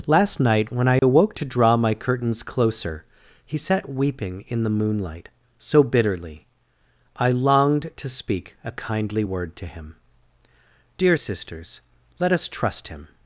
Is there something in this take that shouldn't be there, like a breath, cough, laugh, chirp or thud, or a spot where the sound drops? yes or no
yes